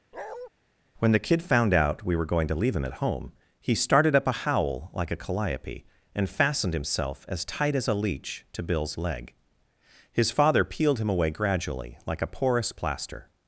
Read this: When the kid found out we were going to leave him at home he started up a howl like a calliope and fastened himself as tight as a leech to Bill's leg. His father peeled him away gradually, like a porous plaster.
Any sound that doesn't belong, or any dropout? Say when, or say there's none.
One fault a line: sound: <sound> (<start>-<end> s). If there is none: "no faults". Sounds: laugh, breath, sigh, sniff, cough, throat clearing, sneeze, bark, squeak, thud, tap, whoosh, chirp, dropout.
sound: bark (0.1-0.5 s)